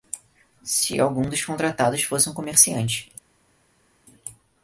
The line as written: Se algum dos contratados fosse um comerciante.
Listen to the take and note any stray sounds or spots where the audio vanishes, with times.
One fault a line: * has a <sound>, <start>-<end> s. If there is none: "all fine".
all fine